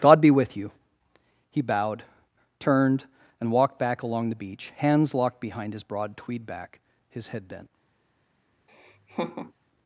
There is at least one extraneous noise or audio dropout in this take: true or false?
true